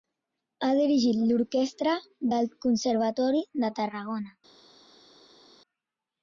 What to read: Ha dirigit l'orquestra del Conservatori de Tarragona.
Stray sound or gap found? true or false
false